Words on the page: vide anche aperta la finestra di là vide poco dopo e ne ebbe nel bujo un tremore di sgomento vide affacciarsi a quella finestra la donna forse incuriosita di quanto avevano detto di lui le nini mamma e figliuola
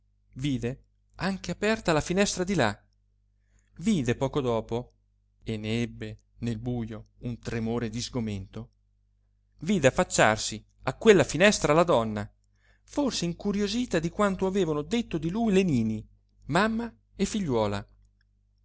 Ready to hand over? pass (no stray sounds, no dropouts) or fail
pass